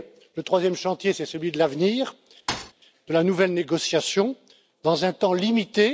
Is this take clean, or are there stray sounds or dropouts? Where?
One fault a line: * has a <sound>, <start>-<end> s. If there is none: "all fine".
* has a thud, 2.5-2.7 s